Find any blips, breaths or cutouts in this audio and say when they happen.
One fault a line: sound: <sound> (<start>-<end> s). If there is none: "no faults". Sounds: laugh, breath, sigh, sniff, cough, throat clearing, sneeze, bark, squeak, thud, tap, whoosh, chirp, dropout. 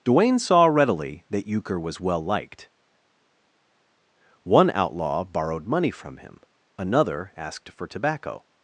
no faults